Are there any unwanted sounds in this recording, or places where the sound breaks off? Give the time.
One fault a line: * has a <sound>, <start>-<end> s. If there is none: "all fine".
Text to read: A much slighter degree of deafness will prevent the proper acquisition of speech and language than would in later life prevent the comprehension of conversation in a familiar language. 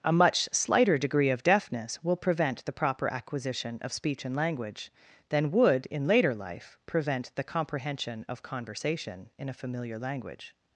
all fine